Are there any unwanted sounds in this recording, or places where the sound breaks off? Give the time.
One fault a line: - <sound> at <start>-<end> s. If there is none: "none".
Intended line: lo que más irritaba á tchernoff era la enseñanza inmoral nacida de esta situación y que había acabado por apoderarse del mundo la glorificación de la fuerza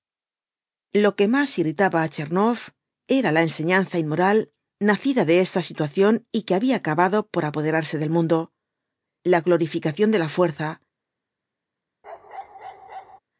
- bark at 12.0-13.2 s